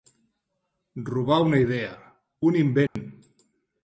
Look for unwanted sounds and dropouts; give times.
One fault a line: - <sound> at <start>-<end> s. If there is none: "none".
- dropout at 2.9-3.0 s